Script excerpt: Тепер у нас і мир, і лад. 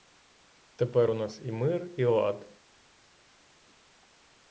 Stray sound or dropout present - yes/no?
no